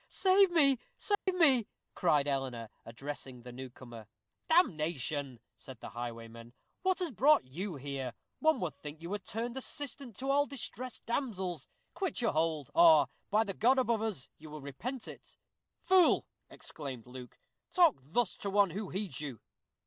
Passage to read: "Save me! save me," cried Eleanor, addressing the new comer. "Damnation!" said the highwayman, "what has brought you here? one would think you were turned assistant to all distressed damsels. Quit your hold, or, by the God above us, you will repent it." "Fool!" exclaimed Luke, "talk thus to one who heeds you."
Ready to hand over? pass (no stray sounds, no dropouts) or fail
fail